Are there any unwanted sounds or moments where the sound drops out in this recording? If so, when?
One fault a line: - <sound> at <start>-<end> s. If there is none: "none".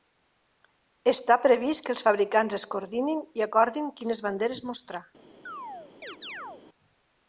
- chirp at 5.5-6.6 s